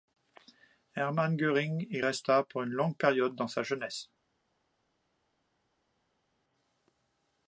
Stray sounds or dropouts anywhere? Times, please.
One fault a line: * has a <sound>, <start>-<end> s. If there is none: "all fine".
all fine